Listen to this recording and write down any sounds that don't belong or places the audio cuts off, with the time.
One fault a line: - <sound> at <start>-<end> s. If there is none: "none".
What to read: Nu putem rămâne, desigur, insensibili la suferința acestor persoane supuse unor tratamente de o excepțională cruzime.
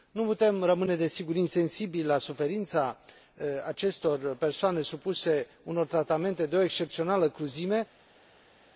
none